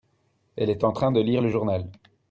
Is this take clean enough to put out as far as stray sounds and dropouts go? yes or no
yes